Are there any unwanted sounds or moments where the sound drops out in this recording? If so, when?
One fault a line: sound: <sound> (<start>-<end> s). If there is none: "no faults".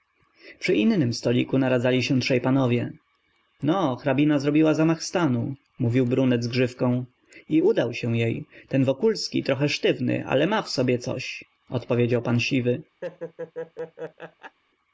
sound: laugh (13.0-14.6 s)